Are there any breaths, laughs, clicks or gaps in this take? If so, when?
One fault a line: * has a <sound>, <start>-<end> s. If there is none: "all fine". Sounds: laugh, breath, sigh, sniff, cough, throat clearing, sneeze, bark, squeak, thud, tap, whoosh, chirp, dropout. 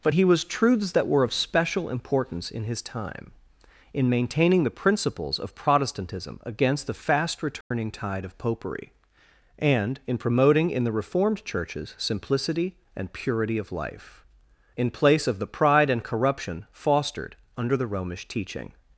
* has a dropout, 7.6-7.7 s